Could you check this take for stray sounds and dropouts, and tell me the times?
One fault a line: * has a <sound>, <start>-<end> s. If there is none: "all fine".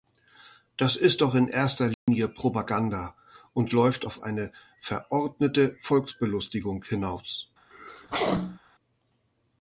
* has a dropout, 1.9-2.1 s
* has a sneeze, 7.7-8.6 s